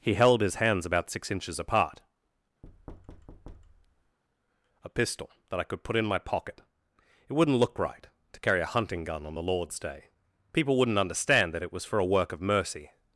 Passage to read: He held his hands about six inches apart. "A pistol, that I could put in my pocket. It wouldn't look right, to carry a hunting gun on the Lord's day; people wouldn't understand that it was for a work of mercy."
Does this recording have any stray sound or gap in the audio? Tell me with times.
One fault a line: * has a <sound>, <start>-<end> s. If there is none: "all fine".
* has a thud, 2.6-4.2 s